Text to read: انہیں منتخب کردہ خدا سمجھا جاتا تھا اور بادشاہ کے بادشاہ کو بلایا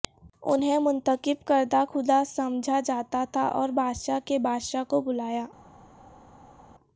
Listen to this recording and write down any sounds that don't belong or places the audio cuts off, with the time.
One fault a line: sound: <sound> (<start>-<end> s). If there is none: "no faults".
no faults